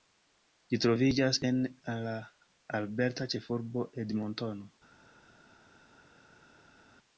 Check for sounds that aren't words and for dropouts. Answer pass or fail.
pass